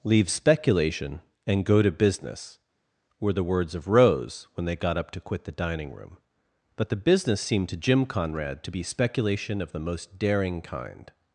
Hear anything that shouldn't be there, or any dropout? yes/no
no